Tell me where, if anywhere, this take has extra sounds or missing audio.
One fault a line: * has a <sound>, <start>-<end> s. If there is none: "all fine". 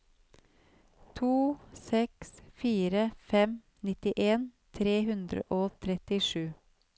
all fine